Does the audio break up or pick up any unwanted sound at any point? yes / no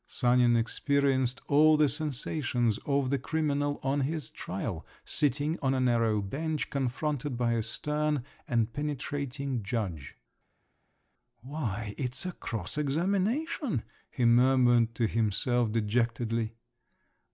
no